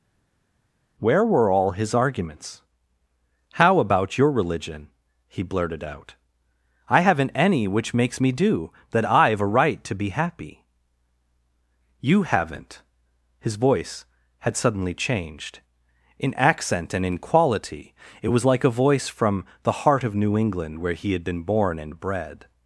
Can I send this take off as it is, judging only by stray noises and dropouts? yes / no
yes